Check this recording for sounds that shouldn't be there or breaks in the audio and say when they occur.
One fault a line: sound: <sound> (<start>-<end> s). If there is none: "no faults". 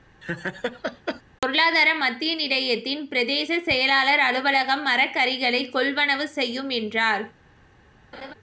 sound: laugh (0.2-1.2 s)
sound: laugh (8.1-8.3 s)